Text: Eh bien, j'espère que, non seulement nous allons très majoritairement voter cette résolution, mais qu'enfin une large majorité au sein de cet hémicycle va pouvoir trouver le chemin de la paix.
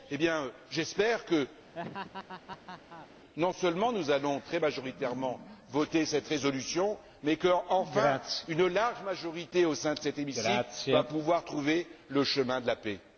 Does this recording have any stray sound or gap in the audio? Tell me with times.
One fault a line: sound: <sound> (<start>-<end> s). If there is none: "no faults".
sound: laugh (1.7-3.1 s)